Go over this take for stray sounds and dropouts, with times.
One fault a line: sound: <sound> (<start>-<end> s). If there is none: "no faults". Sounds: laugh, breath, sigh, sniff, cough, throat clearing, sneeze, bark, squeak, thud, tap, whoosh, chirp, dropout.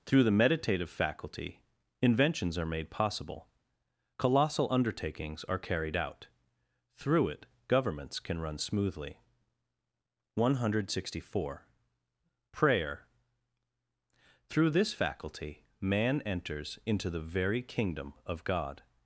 no faults